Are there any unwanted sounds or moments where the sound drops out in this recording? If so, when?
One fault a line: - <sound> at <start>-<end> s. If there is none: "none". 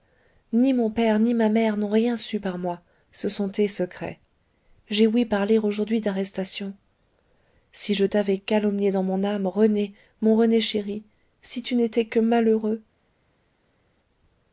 none